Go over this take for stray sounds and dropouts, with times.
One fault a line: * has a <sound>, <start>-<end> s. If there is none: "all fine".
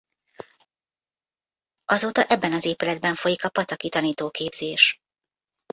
all fine